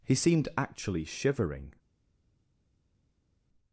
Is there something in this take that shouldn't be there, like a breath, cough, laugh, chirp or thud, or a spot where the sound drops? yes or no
no